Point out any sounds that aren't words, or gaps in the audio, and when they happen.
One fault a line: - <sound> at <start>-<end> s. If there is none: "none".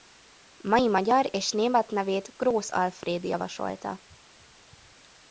none